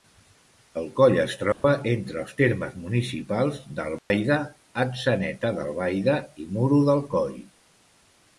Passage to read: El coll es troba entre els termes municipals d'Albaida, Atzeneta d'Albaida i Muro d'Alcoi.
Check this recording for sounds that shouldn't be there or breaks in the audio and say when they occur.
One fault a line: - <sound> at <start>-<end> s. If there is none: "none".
- dropout at 1.5-1.6 s
- dropout at 4.0-4.1 s